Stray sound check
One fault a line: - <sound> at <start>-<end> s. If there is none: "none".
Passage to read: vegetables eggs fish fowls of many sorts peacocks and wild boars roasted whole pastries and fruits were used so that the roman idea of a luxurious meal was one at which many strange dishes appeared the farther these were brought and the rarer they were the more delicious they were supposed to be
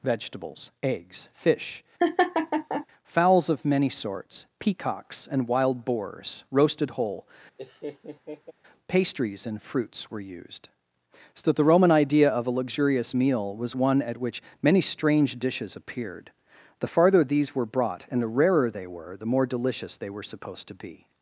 - laugh at 2.0-2.9 s
- laugh at 7.6-8.5 s